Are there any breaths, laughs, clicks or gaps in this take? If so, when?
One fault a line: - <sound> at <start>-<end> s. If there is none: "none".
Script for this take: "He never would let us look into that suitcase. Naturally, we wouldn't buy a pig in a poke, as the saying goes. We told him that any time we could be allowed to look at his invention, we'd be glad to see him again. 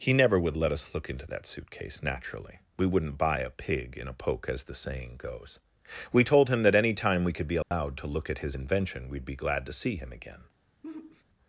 - dropout at 7.6-7.7 s
- sigh at 10.8-11.2 s